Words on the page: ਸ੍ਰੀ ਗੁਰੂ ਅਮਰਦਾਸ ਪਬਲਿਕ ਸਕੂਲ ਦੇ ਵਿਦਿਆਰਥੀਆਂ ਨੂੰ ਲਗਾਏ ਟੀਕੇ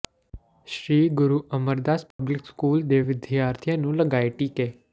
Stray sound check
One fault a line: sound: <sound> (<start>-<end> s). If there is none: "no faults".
sound: dropout (2.1-2.2 s)